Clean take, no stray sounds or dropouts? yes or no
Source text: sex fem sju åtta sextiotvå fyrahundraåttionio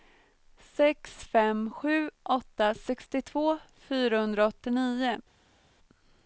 yes